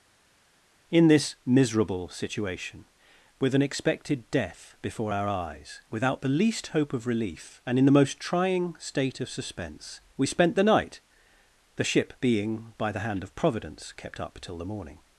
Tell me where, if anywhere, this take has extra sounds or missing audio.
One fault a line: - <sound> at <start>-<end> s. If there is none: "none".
none